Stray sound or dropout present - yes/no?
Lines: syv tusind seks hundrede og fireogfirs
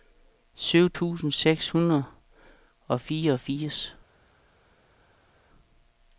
no